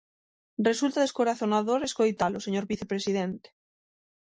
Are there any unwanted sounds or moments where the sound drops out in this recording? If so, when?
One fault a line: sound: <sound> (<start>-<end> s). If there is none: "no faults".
no faults